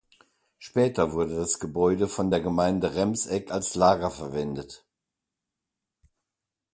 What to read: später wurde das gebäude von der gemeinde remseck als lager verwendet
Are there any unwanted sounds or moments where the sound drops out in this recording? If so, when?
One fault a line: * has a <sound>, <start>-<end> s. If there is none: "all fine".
all fine